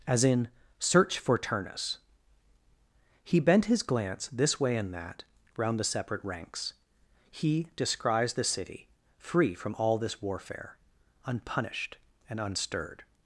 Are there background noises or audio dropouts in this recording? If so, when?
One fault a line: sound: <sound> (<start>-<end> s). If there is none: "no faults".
no faults